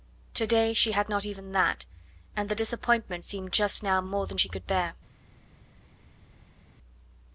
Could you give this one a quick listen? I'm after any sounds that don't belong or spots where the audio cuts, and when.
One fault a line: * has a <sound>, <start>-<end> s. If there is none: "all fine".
all fine